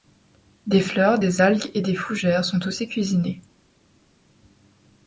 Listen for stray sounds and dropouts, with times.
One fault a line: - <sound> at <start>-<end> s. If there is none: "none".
none